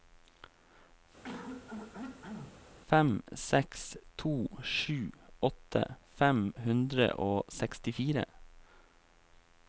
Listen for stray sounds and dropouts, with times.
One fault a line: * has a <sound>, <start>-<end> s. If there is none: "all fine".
* has a throat clearing, 1.2-2.7 s